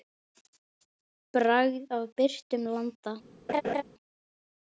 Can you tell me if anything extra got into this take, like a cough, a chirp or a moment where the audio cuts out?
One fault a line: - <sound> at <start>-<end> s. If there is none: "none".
- laugh at 3.5-3.8 s